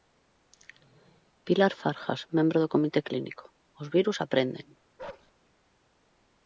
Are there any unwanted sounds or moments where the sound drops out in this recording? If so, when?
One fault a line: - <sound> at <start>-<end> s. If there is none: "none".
- bark at 5.0-5.3 s